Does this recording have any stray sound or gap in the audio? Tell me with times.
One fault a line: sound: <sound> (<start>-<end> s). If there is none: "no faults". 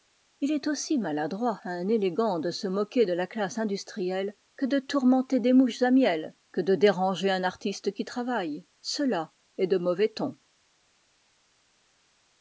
no faults